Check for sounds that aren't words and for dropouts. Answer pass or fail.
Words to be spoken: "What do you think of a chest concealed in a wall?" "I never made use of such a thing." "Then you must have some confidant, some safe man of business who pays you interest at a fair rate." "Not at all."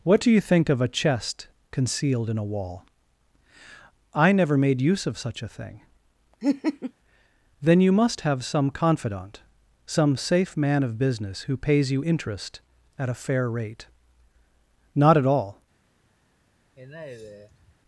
fail